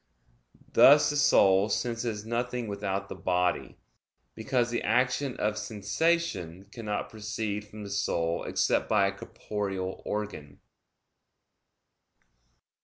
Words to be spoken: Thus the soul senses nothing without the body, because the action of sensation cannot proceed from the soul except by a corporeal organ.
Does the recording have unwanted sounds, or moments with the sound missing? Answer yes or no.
no